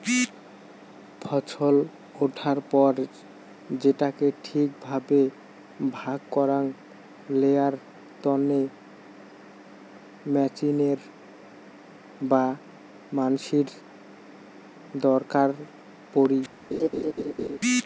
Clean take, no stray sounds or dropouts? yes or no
no